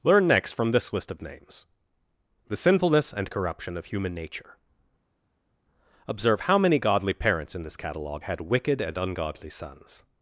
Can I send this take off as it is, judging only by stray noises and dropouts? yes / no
yes